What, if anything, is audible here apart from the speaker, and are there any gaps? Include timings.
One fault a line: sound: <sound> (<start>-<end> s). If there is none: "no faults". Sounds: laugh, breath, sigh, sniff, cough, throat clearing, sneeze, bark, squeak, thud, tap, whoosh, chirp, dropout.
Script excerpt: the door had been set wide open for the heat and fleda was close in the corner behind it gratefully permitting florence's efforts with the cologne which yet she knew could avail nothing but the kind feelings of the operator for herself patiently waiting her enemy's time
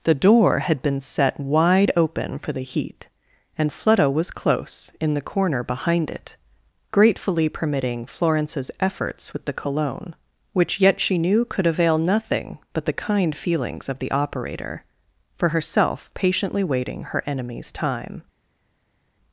no faults